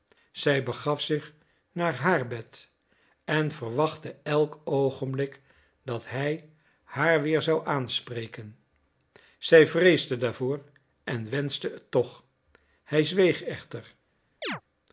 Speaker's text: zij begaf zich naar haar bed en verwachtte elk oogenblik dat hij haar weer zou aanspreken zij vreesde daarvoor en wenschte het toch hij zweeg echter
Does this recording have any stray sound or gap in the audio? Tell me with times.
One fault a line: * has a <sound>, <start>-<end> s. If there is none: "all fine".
* has a chirp, 14.4-14.6 s